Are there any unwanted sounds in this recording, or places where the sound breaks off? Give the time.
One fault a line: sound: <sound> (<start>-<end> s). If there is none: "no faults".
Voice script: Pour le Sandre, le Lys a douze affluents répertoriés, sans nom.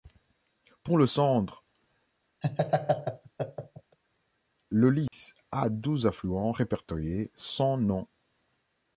sound: laugh (2.4-4.0 s)
sound: dropout (5.1-5.1 s)